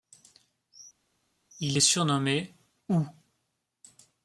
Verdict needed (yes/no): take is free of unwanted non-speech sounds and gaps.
yes